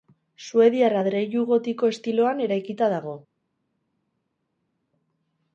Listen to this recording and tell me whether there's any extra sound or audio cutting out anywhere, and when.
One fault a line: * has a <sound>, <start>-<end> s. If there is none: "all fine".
all fine